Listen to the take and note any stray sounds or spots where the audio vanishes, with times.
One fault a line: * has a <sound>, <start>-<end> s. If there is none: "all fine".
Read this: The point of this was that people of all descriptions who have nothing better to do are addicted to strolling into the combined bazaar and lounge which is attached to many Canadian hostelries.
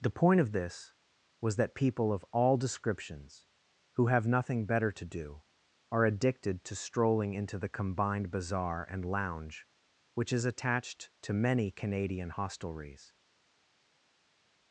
all fine